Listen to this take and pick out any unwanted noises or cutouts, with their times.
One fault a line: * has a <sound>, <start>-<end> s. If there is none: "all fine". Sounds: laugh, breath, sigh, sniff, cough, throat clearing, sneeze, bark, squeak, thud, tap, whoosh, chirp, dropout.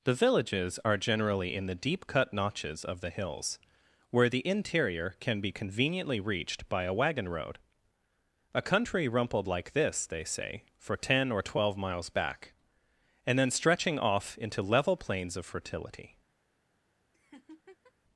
* has a laugh, 17.1-17.9 s